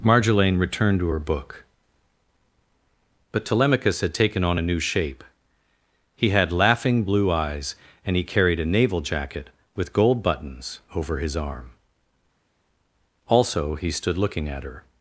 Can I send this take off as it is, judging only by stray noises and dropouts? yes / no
yes